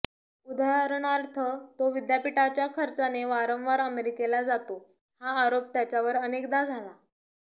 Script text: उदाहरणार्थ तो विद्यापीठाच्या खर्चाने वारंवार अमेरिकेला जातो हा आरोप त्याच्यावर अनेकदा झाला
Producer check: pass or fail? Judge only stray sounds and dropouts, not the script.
pass